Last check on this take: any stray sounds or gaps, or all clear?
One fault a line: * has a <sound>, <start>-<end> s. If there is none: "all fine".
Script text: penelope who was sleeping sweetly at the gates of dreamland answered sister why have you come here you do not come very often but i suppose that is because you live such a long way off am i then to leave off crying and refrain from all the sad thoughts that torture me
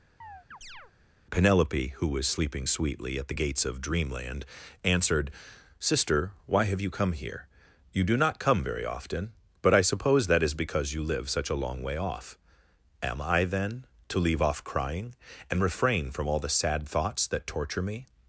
* has a chirp, 0.2-0.9 s